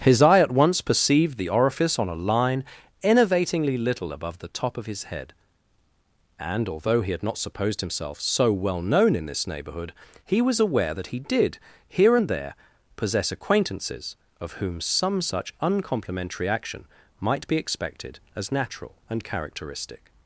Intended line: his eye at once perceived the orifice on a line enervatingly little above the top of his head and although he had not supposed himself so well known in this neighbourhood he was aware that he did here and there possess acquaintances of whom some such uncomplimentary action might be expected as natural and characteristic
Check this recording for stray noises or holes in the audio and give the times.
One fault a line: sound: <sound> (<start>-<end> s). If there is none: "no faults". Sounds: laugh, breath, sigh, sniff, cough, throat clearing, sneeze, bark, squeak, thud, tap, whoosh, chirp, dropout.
no faults